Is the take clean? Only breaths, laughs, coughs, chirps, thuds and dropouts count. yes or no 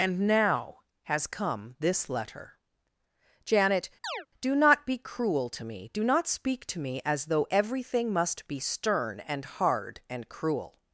no